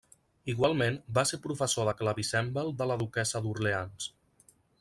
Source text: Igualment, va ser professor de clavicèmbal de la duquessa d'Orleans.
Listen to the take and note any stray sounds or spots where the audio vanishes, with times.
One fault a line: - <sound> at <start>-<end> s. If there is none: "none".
none